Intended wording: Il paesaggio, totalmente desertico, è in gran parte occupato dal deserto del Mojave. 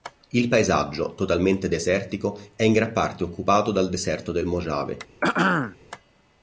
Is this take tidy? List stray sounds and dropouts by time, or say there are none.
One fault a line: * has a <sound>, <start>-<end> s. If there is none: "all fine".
* has a throat clearing, 5.2-5.8 s